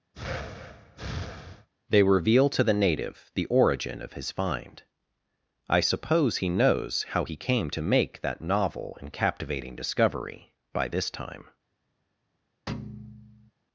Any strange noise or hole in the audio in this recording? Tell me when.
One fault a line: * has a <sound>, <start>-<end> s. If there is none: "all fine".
* has a breath, 0.1-1.7 s
* has a thud, 12.7-13.5 s